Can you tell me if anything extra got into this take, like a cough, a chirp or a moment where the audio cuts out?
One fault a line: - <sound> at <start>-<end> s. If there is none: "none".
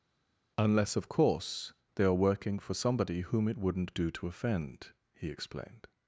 none